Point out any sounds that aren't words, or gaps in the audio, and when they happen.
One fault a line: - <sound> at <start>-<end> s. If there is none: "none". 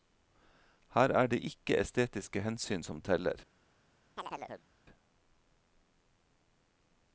- chirp at 4.2-4.7 s